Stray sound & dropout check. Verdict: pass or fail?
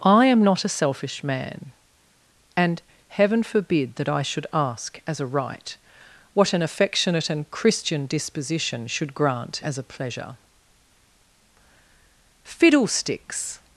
pass